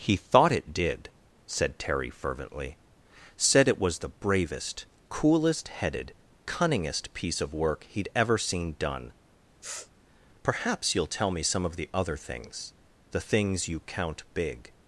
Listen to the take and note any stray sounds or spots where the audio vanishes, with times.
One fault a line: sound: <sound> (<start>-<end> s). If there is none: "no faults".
sound: sniff (9.6-9.9 s)